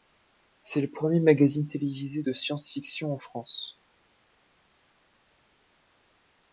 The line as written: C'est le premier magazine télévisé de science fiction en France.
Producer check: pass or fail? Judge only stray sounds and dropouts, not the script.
pass